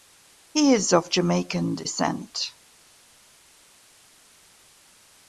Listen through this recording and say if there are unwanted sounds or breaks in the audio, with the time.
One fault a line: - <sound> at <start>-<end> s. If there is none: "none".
none